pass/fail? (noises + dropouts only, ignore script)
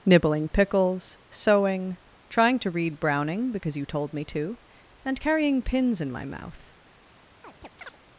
fail